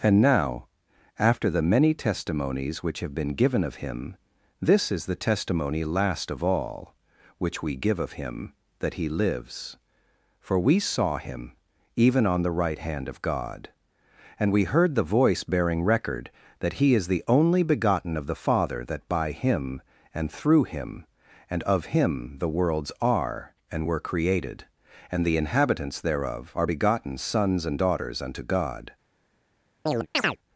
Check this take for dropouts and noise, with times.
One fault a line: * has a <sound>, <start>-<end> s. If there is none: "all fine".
* has a chirp, 29.9-30.4 s